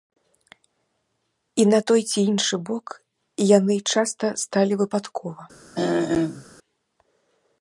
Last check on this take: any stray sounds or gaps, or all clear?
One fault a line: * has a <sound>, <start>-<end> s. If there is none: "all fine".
* has a throat clearing, 5.7-6.4 s